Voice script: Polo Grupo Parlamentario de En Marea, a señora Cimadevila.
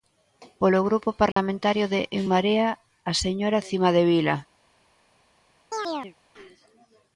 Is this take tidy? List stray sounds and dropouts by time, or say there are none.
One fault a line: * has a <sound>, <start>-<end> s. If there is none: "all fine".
* has a dropout, 1.3-1.4 s
* has a chirp, 5.7-6.1 s